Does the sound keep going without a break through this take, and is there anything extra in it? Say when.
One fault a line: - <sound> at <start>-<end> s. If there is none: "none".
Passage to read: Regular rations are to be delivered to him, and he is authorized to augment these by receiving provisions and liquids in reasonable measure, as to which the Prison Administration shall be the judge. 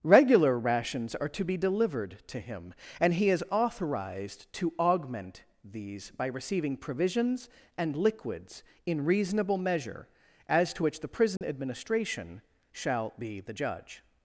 - dropout at 11.4-11.4 s